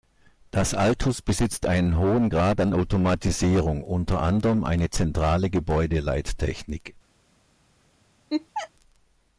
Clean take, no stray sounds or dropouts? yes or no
no